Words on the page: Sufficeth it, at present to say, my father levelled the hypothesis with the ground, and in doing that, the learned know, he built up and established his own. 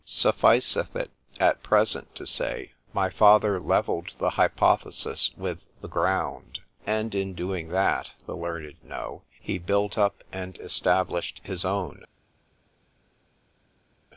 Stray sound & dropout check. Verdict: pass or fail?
pass